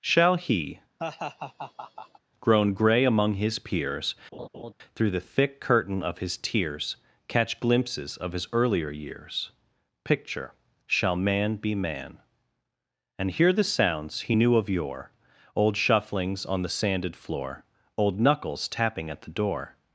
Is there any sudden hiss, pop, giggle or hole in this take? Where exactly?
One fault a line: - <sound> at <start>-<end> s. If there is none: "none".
- laugh at 1.0-2.2 s
- laugh at 4.3-4.7 s